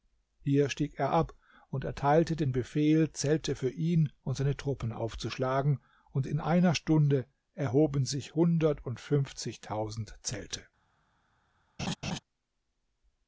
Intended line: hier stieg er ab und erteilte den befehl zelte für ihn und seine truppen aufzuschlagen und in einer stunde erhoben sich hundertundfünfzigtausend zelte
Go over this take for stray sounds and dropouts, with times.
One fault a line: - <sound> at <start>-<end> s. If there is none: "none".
- laugh at 11.8-12.2 s